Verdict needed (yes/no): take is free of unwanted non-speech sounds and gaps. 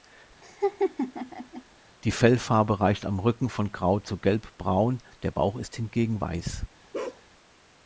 no